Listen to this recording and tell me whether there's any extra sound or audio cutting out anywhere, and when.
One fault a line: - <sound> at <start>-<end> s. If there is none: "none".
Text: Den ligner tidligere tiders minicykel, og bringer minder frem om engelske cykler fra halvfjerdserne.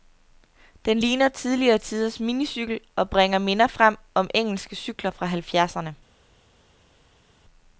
none